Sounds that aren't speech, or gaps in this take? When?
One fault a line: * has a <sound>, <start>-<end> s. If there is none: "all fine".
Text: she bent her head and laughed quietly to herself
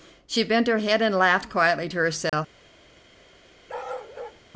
* has a dropout, 2.3-2.3 s
* has a bark, 3.7-4.4 s